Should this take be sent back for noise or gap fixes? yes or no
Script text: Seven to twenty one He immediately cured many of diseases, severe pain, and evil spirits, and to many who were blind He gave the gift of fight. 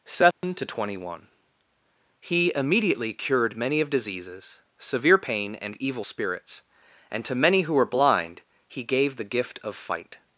yes